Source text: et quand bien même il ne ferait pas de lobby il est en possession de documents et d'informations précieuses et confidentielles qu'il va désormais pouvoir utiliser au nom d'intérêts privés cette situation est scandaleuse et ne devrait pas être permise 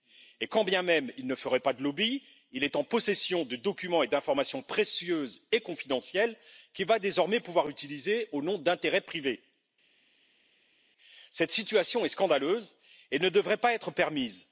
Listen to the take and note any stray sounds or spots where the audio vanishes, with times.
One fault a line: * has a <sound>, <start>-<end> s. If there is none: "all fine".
all fine